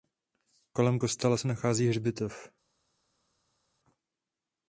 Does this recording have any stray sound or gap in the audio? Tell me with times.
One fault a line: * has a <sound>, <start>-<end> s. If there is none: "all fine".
all fine